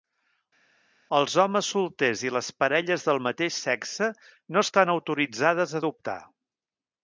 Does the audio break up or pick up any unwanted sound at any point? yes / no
no